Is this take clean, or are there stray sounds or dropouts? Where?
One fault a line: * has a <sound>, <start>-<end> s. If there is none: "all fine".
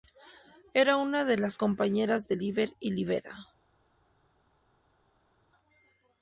all fine